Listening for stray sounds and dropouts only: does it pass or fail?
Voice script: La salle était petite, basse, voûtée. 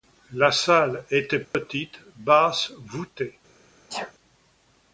fail